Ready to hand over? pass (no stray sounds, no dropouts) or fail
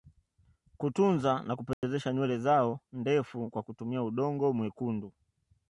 fail